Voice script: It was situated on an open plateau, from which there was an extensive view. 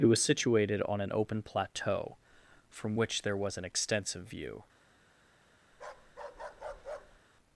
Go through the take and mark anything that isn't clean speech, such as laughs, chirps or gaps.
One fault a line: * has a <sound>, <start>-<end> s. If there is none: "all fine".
* has a bark, 5.7-7.2 s